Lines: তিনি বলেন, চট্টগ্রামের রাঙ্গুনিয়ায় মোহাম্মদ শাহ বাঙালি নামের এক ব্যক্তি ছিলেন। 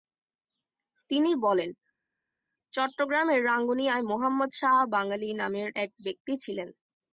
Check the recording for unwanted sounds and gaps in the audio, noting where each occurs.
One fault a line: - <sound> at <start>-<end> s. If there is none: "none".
none